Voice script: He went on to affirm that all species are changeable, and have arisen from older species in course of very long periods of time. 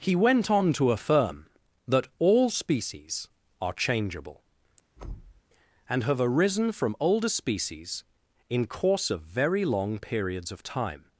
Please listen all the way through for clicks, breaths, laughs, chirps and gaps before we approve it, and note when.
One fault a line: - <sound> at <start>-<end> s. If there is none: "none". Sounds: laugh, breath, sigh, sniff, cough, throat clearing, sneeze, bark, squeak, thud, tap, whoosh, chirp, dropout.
- thud at 5.0-5.4 s